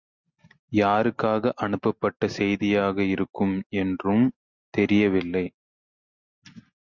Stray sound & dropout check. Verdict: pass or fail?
pass